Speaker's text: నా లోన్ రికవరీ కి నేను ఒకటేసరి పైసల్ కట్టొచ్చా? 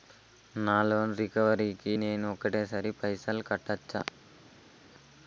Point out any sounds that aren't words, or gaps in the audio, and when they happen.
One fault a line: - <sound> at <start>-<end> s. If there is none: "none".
none